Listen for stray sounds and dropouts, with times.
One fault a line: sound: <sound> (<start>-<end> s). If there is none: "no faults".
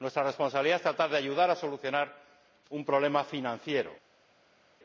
no faults